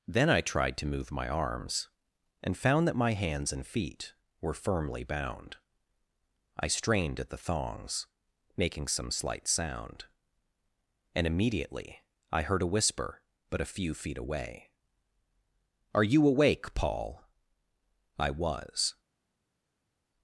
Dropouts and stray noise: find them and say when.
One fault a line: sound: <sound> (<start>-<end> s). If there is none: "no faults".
no faults